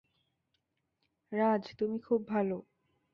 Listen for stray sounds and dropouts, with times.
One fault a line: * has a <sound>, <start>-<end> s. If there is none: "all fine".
all fine